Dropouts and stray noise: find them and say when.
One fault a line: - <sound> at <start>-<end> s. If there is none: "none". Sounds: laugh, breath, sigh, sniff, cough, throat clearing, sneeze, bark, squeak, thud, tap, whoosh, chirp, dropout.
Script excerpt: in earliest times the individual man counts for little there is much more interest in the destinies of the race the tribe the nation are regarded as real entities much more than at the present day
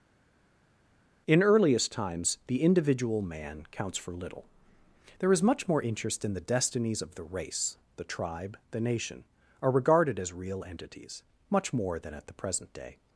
none